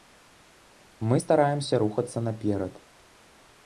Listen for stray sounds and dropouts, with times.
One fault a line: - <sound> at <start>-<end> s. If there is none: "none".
none